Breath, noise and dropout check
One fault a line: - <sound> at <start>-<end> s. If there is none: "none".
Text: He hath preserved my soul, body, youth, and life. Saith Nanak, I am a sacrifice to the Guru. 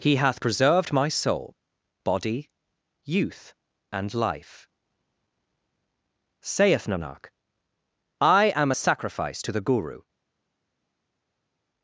none